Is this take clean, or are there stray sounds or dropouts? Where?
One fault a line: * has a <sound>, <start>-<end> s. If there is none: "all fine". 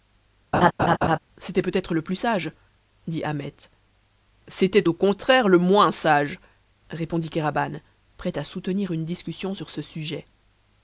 * has a laugh, 0.5-1.2 s